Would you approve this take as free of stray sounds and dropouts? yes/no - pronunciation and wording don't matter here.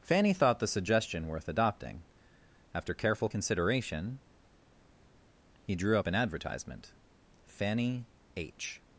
yes